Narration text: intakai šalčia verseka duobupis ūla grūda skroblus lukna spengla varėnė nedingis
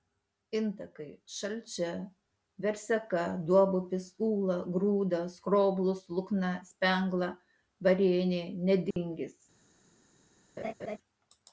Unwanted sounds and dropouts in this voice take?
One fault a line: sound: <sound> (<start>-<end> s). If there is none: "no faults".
sound: dropout (8.9-9.0 s)
sound: laugh (10.6-11.0 s)